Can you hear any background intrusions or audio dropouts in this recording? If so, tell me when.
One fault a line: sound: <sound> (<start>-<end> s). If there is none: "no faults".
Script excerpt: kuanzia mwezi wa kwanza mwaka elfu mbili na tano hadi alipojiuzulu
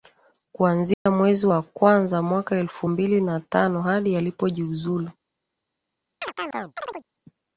sound: dropout (0.9-1.1 s)
sound: chirp (6.2-7.1 s)